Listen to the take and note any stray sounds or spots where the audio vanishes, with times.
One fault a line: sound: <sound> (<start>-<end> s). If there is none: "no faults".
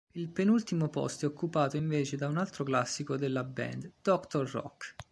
no faults